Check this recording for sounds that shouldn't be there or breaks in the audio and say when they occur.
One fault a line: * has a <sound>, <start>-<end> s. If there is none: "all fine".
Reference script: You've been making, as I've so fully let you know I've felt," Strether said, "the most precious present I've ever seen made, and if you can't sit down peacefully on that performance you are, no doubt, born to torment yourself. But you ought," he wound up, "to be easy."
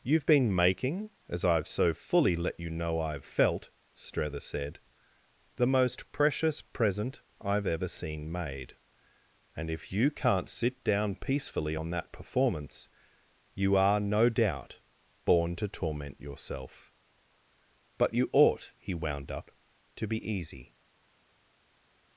all fine